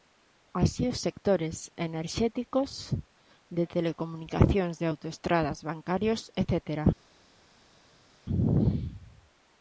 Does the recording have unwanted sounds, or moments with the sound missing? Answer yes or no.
no